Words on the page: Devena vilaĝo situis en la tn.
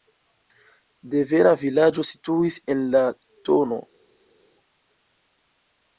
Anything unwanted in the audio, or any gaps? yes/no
no